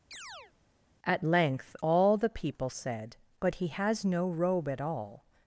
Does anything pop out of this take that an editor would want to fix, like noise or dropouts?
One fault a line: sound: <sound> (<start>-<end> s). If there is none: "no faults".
sound: chirp (0.1-0.5 s)